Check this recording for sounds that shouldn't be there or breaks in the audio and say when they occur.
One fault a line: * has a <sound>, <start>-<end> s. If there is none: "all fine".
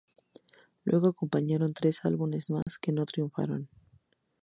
* has a dropout, 2.6-2.7 s